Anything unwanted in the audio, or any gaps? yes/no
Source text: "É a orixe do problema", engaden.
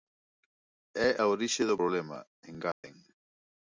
yes